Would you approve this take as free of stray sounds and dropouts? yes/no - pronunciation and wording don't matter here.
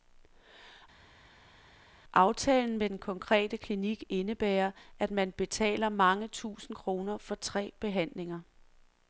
yes